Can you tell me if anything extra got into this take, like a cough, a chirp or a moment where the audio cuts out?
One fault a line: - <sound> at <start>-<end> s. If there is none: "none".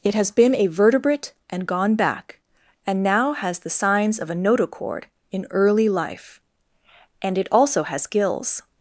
none